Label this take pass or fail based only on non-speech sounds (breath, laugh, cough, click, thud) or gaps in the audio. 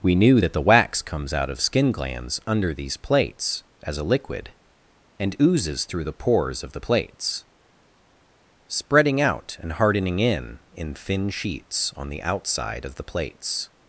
pass